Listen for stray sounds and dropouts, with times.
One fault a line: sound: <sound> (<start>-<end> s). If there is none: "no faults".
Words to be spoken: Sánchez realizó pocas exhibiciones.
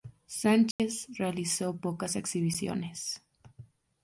sound: dropout (0.7-0.8 s)